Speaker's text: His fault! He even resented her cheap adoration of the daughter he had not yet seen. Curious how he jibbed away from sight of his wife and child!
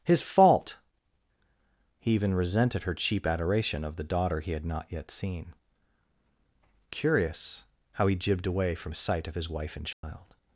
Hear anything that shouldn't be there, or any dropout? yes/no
yes